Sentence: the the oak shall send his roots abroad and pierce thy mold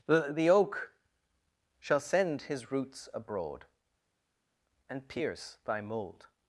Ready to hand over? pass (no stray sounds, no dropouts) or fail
pass